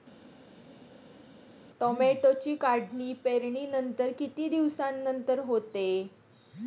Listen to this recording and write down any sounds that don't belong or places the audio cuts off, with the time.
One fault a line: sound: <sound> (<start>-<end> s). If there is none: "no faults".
no faults